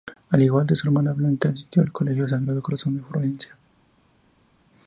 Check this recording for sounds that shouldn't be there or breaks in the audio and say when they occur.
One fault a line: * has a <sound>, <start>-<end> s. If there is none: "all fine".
all fine